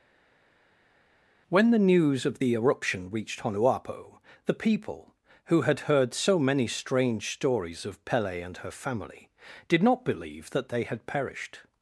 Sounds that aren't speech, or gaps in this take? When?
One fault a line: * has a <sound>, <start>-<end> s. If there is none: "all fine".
all fine